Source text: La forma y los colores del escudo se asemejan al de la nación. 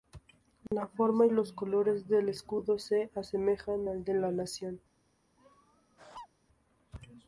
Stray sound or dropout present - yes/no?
yes